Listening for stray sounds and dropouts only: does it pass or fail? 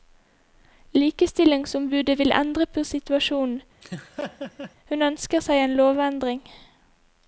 fail